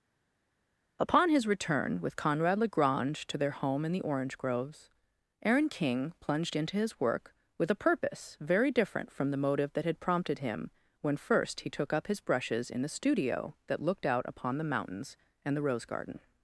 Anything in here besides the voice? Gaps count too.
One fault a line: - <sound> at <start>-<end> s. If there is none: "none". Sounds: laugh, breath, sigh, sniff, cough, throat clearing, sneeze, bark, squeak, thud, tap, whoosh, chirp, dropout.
none